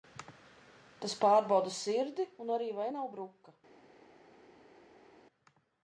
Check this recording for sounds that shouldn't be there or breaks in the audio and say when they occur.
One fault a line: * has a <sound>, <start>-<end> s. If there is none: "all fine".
all fine